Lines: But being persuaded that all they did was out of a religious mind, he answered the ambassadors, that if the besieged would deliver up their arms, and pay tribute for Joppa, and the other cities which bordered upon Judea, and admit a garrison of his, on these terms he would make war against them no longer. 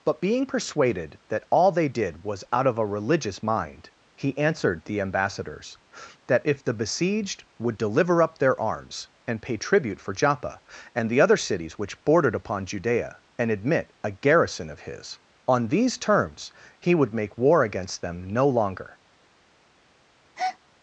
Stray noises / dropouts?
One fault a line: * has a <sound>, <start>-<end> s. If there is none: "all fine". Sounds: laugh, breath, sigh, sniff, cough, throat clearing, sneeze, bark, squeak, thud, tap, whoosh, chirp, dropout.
* has a breath, 20.4-20.6 s